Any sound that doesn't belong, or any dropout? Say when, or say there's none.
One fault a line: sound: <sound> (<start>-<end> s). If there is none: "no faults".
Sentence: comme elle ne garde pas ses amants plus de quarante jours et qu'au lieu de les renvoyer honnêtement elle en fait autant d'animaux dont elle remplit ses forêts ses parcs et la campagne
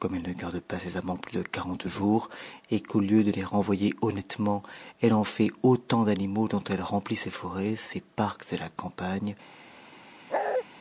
sound: bark (10.3-10.6 s)